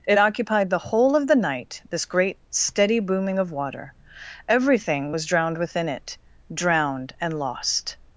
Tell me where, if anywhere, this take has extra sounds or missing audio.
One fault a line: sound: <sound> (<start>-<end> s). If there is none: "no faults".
no faults